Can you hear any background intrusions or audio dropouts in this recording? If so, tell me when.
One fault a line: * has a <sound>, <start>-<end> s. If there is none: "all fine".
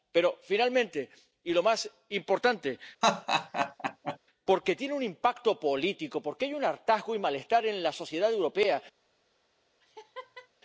* has a laugh, 3.0-4.2 s
* has a laugh, 9.8-10.5 s